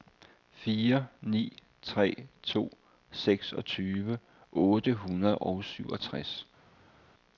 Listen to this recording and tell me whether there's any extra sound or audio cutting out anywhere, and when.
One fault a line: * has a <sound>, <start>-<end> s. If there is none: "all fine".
all fine